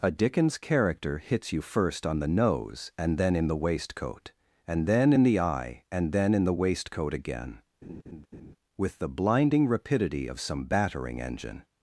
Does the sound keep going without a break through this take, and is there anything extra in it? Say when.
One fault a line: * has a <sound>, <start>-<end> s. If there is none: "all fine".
* has a laugh, 7.8-8.6 s